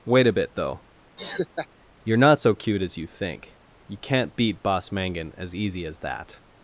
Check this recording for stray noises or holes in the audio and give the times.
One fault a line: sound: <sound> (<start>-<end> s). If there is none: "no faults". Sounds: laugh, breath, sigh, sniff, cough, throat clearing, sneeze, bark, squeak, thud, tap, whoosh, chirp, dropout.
sound: laugh (1.2-1.7 s)